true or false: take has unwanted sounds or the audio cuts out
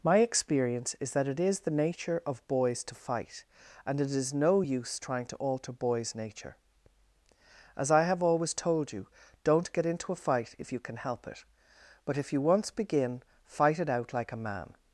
false